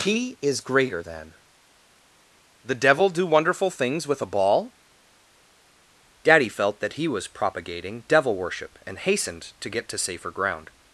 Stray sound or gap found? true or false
false